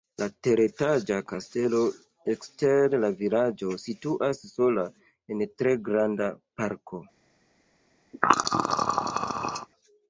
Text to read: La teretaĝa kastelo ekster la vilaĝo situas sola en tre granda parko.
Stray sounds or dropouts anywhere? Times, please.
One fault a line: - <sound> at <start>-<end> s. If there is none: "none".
- throat clearing at 8.1-9.7 s